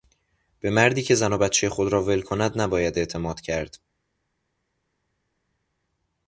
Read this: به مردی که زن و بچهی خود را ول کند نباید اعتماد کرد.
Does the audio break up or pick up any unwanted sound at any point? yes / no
no